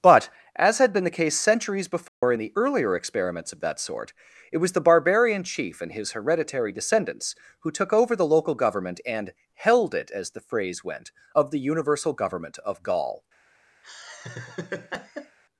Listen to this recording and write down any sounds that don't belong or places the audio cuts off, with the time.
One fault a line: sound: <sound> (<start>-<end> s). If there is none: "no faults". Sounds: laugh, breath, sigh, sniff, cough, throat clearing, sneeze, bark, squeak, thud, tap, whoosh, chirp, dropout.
sound: dropout (2.1-2.2 s)
sound: laugh (13.8-15.4 s)